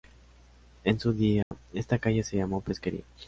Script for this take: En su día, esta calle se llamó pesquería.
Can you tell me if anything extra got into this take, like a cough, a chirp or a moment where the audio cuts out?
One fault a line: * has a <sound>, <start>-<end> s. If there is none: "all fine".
* has a dropout, 1.4-1.5 s